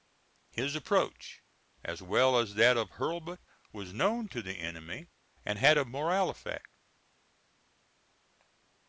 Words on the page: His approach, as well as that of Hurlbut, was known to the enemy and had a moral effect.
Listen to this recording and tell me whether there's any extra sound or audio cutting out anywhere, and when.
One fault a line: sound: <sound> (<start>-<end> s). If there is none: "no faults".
no faults